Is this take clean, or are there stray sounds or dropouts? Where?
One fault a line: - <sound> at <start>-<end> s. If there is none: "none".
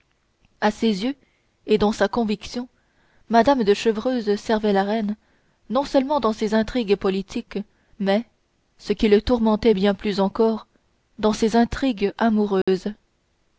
- dropout at 12.6-12.7 s